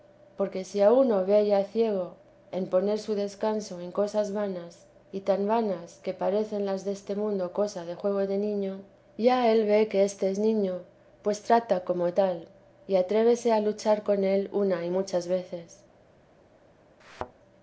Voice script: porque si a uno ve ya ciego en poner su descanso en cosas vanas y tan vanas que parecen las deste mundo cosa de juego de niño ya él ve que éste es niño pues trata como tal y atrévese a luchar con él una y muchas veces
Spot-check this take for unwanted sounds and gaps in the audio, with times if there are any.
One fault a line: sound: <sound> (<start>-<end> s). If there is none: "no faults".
sound: thud (17.0-17.3 s)